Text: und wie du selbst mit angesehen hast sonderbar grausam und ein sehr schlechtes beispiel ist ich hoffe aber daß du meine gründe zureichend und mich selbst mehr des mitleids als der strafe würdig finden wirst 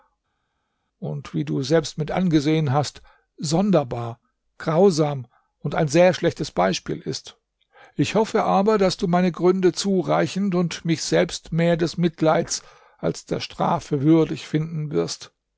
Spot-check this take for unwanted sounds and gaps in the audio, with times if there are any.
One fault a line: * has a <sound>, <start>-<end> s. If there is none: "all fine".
all fine